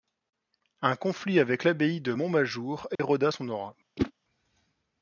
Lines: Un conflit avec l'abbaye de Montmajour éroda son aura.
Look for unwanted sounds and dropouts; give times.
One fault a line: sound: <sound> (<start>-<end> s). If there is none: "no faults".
sound: dropout (3.0-3.0 s)
sound: whoosh (4.0-4.1 s)